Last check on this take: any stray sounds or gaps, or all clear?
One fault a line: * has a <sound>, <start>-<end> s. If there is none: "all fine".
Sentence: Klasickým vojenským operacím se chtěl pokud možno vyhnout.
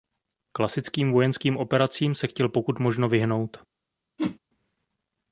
* has a whoosh, 4.2-4.4 s